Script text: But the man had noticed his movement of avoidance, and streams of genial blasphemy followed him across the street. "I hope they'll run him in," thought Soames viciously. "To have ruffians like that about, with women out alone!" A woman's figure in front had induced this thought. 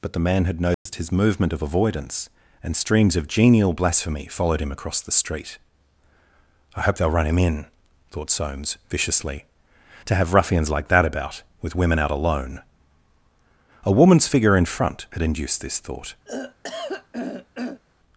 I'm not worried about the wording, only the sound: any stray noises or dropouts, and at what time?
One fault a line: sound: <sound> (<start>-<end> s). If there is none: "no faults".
sound: dropout (0.7-0.9 s)
sound: throat clearing (16.3-17.8 s)